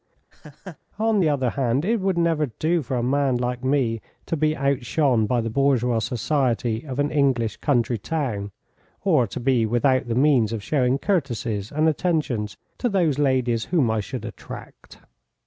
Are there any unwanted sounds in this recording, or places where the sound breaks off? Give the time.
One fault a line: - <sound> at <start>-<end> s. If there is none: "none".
- laugh at 0.3-0.8 s